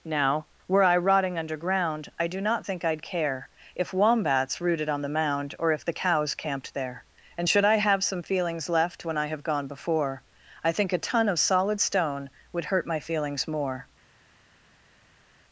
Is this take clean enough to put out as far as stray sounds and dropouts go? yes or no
yes